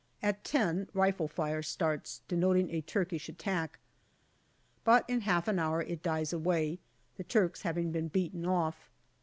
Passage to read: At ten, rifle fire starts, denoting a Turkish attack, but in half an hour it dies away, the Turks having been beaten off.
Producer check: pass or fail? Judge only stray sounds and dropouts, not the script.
pass